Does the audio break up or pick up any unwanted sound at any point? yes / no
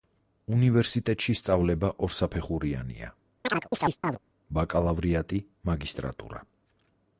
yes